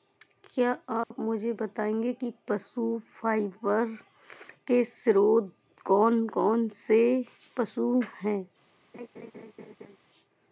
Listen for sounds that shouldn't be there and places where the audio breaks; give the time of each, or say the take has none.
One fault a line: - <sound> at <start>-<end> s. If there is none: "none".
- dropout at 1.0-1.1 s
- laugh at 8.9-10.0 s